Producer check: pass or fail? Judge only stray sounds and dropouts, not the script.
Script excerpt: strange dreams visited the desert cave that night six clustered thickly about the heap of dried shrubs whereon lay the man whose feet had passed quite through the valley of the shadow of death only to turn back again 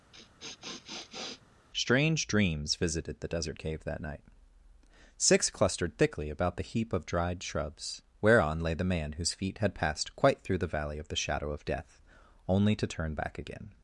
fail